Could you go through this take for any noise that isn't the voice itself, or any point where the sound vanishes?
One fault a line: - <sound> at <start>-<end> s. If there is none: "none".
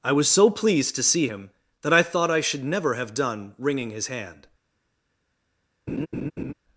- laugh at 5.9-6.5 s